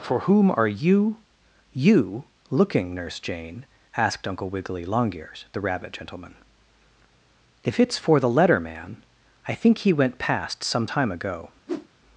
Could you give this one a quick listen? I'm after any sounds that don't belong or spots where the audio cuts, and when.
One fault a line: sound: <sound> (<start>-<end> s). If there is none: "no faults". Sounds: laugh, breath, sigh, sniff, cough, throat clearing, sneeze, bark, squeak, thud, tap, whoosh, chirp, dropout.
sound: whoosh (11.7-11.9 s)